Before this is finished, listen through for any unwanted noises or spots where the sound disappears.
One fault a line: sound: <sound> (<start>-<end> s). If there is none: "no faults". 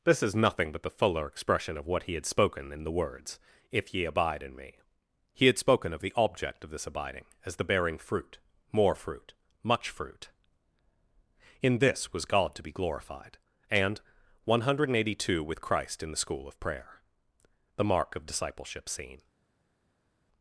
no faults